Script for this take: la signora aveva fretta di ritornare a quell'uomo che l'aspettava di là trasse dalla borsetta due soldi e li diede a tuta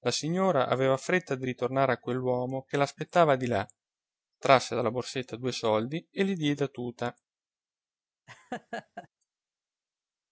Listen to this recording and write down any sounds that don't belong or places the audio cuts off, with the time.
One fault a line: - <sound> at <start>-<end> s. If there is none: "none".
- laugh at 8.3-9.1 s